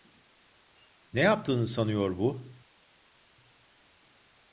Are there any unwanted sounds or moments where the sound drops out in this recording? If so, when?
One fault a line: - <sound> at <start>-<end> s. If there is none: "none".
none